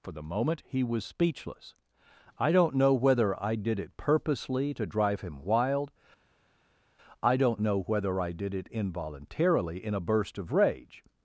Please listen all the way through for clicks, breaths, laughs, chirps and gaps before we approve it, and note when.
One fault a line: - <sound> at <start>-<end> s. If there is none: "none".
none